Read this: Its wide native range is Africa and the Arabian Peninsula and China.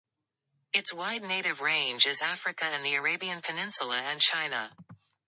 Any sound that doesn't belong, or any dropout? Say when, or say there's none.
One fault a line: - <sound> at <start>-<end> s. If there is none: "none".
none